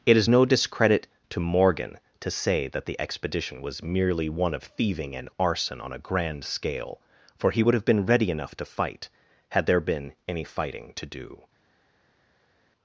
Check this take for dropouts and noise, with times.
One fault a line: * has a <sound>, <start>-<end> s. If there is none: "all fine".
all fine